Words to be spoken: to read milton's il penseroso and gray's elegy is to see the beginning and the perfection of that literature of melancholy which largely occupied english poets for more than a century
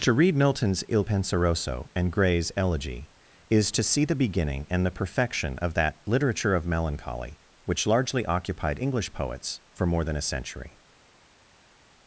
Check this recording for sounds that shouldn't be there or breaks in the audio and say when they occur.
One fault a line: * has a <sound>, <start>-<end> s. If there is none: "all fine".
all fine